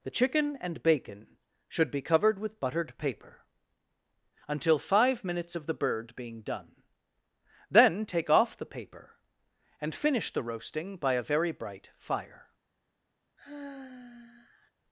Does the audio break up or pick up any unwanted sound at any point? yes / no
yes